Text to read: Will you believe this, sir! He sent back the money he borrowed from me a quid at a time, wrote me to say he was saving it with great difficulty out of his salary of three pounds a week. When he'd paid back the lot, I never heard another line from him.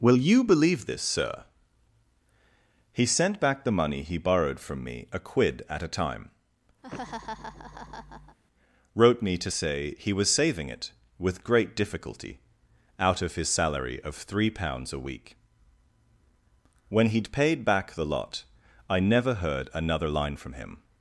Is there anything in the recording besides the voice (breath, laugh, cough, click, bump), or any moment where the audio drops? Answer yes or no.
yes